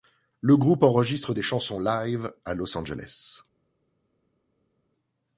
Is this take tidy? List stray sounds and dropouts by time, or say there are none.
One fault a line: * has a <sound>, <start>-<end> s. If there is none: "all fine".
all fine